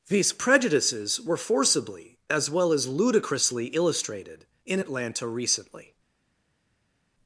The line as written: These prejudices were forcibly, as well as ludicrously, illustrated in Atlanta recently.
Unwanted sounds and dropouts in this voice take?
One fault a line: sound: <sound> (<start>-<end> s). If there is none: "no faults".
no faults